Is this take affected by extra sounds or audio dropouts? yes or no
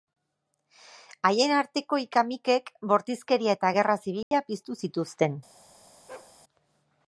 yes